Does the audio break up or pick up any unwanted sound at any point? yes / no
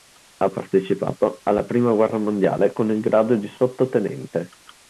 no